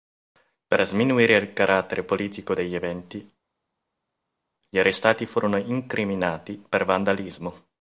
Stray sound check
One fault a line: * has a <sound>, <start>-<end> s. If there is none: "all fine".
all fine